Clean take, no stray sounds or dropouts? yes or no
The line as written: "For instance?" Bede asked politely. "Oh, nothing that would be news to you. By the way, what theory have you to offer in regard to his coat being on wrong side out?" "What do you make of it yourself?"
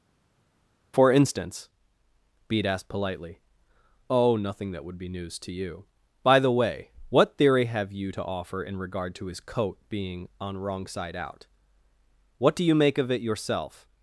yes